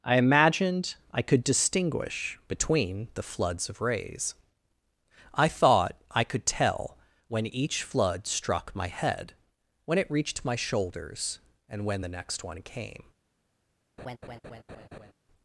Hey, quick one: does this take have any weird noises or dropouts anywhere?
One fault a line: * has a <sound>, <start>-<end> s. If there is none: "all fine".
* has a laugh, 14.0-15.1 s